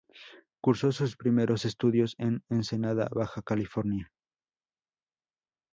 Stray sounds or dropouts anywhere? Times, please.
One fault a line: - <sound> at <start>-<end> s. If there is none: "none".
none